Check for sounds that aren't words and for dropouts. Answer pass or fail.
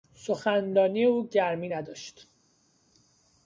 pass